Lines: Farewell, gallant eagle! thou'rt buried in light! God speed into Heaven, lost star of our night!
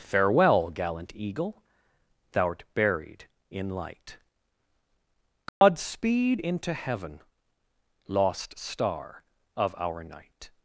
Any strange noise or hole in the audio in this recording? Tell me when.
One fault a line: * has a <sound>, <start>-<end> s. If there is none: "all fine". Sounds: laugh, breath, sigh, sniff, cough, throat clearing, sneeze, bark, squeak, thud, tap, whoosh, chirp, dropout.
* has a dropout, 5.5-5.6 s